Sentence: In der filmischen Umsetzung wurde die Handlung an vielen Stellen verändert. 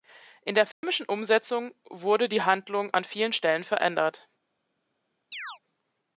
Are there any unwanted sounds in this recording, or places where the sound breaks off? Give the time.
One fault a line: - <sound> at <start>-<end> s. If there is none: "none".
- dropout at 0.7-0.8 s
- chirp at 5.3-5.6 s